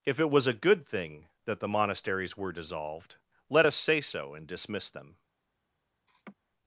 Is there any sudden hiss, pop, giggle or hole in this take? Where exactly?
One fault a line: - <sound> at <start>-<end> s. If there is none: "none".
- laugh at 6.1-6.4 s